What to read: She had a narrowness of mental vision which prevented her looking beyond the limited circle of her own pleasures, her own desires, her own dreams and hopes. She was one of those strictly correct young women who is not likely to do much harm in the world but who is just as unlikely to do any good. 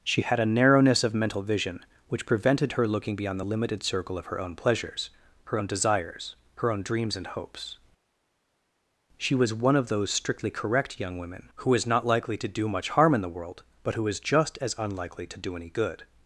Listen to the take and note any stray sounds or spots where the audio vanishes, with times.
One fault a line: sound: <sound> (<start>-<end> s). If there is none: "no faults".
no faults